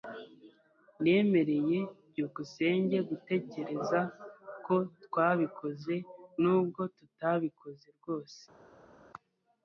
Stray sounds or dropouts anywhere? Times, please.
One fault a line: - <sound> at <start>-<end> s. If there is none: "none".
none